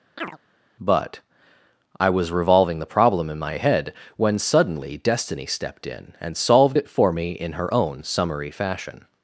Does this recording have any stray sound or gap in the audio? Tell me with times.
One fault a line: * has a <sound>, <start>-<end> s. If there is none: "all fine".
* has a chirp, 0.2-0.4 s